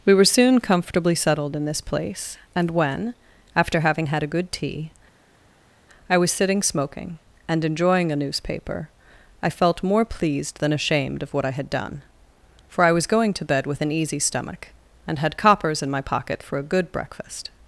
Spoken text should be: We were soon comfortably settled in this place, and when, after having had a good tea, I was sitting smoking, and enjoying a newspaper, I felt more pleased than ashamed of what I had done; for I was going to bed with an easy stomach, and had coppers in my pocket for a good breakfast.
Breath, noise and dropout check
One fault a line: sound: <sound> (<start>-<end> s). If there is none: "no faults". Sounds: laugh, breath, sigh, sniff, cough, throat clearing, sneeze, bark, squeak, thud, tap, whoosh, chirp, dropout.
no faults